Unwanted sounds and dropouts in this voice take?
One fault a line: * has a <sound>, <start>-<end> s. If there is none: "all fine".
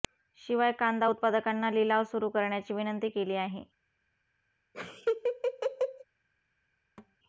* has a laugh, 4.7-6.0 s
* has a thud, 7.0-7.2 s